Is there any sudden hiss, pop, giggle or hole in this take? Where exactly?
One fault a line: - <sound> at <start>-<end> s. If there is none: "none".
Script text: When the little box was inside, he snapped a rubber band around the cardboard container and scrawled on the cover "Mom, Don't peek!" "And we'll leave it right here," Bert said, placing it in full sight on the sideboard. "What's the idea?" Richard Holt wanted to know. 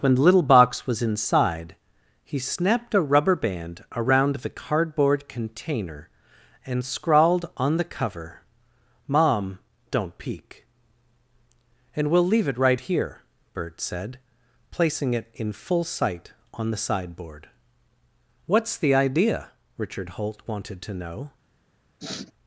- sniff at 22.0-22.3 s